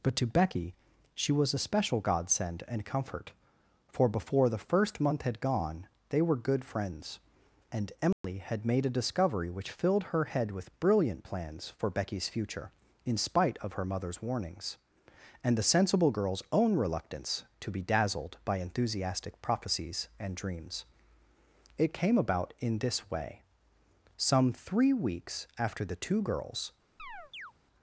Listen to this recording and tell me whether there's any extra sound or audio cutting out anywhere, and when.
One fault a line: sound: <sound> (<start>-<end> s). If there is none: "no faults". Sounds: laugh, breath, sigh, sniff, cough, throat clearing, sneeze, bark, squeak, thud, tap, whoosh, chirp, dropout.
sound: dropout (8.1-8.2 s)
sound: chirp (27.0-27.5 s)